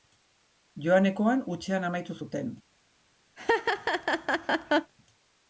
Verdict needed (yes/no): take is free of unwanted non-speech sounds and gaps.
no